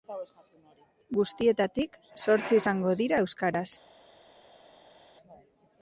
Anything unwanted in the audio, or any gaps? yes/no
no